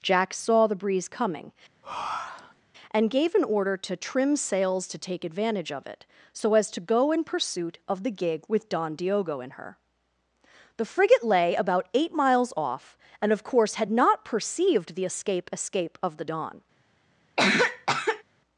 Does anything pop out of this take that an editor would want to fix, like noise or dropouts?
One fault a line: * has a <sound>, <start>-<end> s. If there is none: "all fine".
* has a breath, 1.8-2.6 s
* has a cough, 17.4-18.2 s